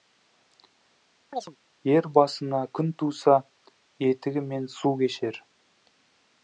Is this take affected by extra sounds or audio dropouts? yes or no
yes